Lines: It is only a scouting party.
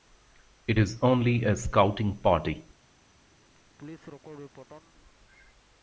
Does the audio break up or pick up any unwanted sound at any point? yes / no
yes